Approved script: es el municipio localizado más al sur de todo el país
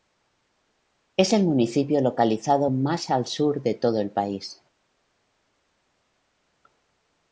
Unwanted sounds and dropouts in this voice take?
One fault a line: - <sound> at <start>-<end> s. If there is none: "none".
none